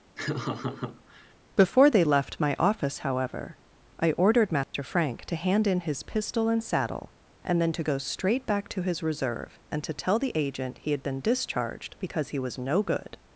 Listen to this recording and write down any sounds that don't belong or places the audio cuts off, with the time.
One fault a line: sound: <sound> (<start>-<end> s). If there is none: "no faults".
sound: laugh (0.2-1.3 s)
sound: dropout (4.6-4.7 s)